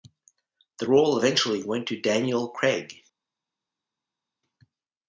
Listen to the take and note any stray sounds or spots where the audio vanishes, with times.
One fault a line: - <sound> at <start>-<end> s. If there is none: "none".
none